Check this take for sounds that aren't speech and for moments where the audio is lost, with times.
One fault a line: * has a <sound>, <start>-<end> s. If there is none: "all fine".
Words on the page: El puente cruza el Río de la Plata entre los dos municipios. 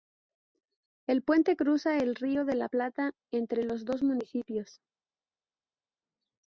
all fine